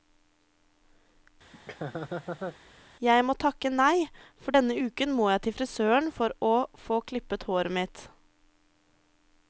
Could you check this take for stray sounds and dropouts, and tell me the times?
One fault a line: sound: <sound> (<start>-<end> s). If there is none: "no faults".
sound: laugh (1.5-2.6 s)